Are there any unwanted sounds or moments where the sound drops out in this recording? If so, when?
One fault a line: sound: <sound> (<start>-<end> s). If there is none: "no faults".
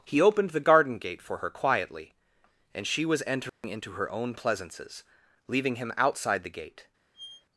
sound: dropout (3.5-3.6 s)
sound: squeak (7.1-7.5 s)